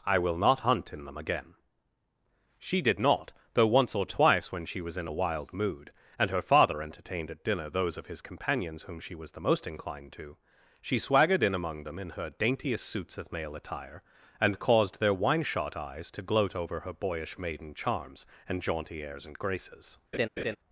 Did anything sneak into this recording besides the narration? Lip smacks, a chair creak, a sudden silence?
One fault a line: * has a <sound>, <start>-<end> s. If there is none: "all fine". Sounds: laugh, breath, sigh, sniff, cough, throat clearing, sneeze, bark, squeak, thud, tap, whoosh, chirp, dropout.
* has a laugh, 20.1-20.6 s